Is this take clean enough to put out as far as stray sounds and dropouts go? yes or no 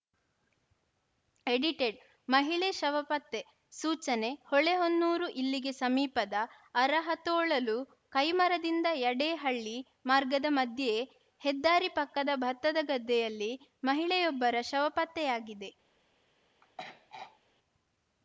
no